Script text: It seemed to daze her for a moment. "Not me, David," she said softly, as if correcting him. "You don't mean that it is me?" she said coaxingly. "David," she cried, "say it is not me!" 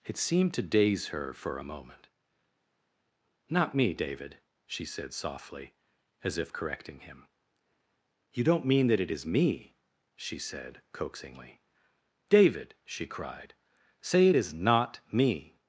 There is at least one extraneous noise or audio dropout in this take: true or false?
false